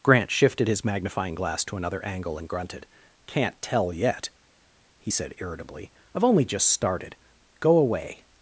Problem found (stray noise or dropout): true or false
false